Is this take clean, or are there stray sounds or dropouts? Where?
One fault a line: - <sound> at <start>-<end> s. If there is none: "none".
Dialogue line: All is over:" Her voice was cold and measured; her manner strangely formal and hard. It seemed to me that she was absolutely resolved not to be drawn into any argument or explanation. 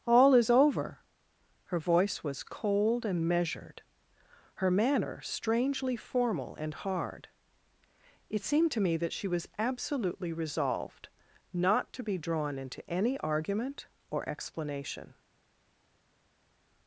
none